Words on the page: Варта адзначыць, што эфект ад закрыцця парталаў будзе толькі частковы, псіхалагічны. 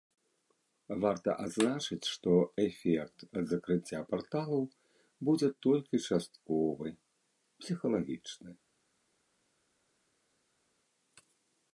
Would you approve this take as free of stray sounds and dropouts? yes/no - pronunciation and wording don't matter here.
yes